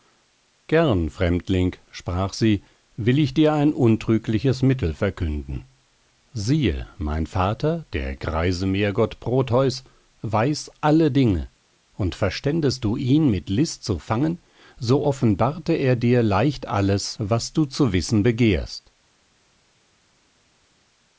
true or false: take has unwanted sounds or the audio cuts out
false